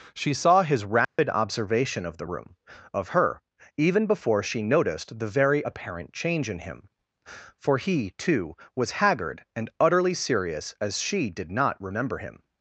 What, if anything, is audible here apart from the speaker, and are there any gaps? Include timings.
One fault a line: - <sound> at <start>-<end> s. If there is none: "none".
- dropout at 1.0-1.2 s